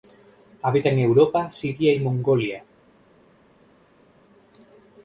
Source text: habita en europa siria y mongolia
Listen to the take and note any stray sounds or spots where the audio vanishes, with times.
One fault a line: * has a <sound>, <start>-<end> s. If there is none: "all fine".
all fine